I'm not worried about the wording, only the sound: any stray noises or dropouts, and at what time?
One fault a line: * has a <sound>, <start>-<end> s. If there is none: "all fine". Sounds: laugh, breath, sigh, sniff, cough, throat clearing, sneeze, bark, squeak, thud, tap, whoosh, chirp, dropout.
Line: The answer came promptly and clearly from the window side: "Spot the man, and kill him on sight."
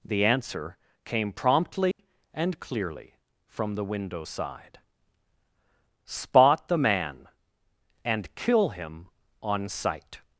* has a dropout, 1.9-2.0 s